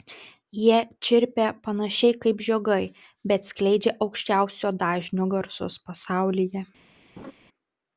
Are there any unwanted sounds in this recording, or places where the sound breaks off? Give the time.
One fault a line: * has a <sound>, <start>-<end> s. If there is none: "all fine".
* has a laugh, 7.2-7.3 s